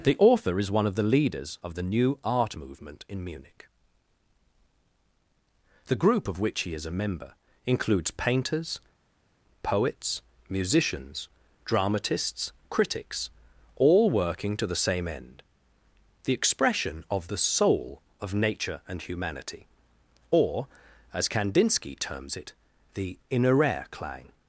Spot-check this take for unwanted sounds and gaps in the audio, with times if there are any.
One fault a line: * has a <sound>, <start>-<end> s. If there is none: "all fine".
all fine